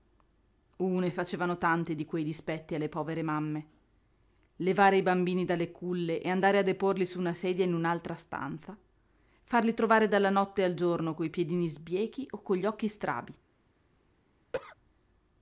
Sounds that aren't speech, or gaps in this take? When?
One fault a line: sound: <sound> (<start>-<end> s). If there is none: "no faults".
sound: cough (14.5-14.8 s)